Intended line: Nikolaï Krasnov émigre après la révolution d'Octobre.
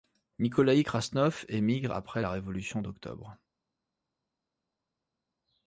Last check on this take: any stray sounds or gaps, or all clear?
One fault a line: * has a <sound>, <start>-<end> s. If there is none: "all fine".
all fine